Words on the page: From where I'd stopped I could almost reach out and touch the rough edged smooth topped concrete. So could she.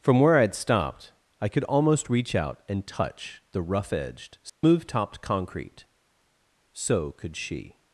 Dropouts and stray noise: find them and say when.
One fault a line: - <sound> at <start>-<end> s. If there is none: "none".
- dropout at 4.5-4.6 s